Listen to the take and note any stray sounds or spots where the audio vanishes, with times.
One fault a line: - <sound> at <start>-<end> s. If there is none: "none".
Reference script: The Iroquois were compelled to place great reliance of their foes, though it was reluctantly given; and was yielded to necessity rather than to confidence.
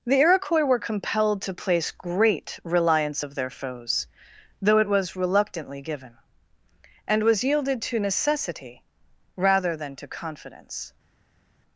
none